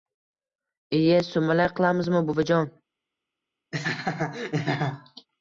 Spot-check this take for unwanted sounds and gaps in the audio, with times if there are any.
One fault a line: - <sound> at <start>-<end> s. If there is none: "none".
- laugh at 3.7-5.3 s